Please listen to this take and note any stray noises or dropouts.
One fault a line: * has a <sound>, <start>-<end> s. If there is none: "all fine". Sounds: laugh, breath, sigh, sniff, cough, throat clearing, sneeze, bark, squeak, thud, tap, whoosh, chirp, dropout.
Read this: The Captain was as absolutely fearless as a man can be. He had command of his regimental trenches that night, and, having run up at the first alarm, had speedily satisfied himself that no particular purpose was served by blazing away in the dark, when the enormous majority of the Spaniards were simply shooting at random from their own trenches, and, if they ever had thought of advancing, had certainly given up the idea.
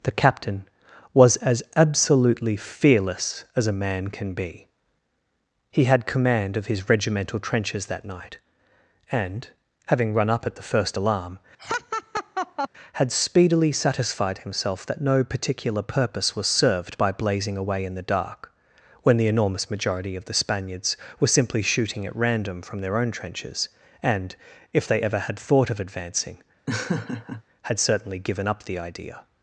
* has a laugh, 11.6-12.7 s
* has a laugh, 26.7-27.4 s